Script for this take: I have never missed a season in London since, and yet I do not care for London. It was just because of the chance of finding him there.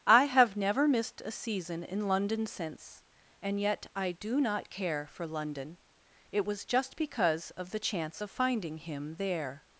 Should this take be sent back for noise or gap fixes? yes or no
no